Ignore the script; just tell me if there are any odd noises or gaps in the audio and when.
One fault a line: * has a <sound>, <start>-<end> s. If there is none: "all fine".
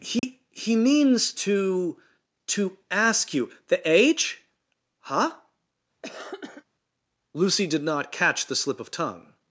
* has a dropout, 0.2-0.2 s
* has a cough, 6.0-6.7 s